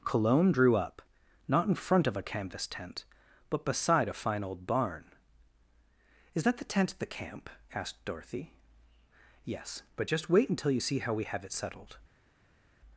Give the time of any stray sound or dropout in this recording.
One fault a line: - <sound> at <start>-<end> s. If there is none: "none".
none